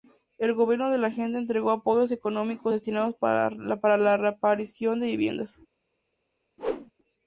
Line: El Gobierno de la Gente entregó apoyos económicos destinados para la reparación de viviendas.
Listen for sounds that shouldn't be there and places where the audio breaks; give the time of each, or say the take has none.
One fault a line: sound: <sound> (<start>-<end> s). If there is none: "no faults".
sound: whoosh (6.6-6.9 s)